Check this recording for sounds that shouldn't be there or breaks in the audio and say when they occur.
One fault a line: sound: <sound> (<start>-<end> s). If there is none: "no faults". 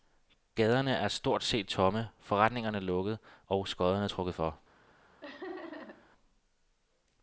sound: laugh (5.2-6.1 s)